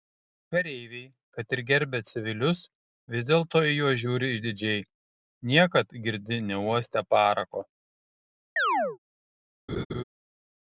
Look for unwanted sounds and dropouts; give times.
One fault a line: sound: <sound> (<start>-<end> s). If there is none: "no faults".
sound: chirp (8.6-9.0 s)
sound: laugh (9.7-10.0 s)